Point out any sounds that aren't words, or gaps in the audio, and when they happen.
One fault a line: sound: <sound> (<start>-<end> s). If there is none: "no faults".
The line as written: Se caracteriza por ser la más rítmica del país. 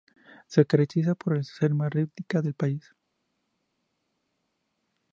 no faults